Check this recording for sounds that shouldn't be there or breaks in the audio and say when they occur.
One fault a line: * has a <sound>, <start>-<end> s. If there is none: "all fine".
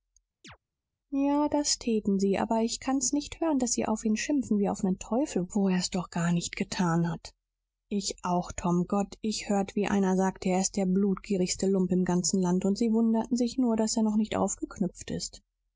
* has a chirp, 0.4-0.6 s